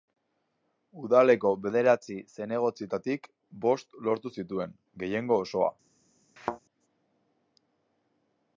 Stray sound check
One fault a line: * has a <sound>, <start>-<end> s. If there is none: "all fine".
* has a thud, 6.4-6.6 s